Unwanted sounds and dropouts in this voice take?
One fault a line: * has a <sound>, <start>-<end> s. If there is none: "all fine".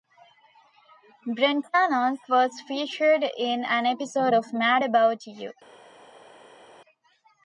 all fine